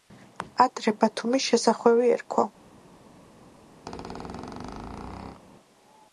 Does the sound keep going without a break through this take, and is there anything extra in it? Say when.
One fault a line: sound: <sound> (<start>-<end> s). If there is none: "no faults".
sound: squeak (3.9-5.4 s)